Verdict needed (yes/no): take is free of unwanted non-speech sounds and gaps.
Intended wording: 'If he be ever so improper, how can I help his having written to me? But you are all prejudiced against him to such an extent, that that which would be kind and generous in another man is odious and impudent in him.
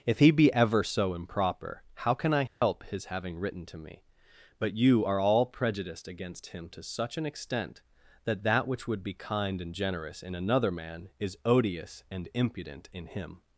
no